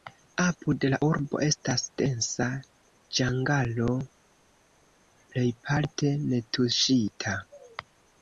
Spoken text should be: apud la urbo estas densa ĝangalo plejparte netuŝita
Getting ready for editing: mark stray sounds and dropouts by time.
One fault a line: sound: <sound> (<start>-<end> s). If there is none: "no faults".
no faults